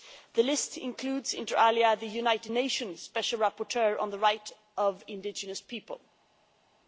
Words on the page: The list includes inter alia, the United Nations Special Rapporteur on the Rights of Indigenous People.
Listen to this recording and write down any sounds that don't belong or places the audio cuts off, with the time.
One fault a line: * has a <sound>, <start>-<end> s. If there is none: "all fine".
all fine